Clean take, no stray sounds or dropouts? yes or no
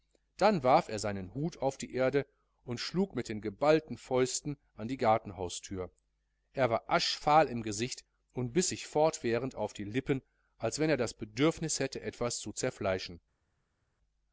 yes